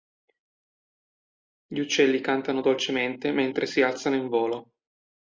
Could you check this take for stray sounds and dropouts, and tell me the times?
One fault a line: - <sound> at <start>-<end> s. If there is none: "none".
none